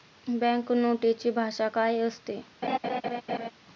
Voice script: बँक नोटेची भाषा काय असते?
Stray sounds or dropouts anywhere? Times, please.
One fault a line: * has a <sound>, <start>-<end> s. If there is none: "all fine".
* has a laugh, 2.6-3.5 s